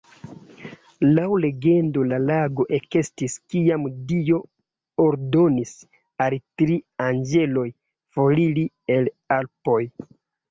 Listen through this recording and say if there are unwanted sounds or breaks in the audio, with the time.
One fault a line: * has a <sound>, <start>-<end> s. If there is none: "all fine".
all fine